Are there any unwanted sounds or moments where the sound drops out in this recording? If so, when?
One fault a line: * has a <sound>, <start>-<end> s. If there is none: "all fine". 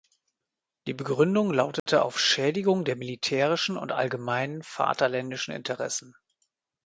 * has a dropout, 1.8-1.9 s